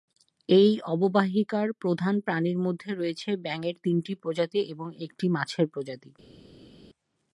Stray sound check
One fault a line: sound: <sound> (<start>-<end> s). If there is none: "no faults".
no faults